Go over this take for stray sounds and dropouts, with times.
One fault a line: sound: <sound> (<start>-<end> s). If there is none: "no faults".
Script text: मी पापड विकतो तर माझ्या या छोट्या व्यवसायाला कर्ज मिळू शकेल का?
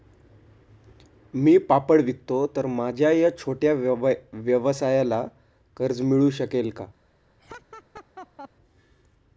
sound: laugh (7.4-8.5 s)